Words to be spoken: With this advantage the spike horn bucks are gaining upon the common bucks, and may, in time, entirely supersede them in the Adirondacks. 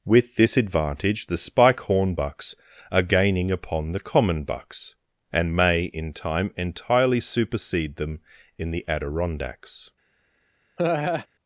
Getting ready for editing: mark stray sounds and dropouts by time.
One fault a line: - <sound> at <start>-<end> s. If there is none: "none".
- laugh at 10.8-11.3 s